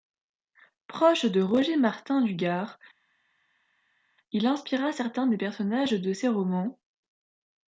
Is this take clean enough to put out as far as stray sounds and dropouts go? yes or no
yes